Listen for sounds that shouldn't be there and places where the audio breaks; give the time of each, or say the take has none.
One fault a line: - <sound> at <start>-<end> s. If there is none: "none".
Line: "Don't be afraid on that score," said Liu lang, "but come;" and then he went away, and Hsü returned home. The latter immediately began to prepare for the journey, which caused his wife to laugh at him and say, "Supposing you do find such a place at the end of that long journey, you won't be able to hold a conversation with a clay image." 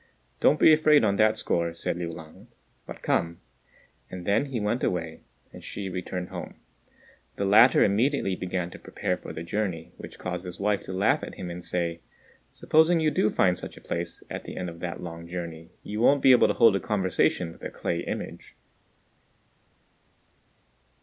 none